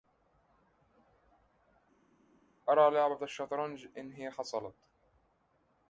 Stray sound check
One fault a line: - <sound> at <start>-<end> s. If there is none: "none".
none